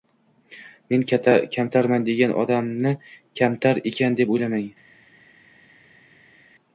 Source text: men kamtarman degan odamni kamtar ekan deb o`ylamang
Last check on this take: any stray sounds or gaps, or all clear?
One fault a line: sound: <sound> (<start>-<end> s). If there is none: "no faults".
no faults